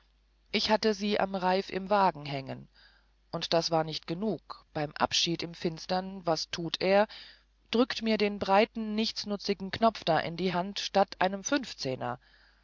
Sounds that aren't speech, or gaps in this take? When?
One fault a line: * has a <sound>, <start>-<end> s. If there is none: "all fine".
all fine